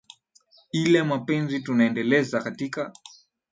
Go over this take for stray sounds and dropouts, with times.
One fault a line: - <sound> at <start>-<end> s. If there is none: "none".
none